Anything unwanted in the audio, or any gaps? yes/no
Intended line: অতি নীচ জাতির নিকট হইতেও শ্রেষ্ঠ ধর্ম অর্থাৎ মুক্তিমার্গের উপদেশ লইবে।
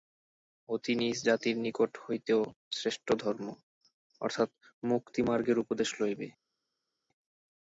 no